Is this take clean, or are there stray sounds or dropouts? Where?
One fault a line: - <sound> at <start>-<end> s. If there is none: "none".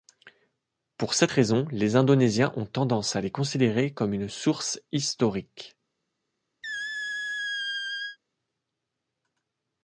- squeak at 6.6-8.2 s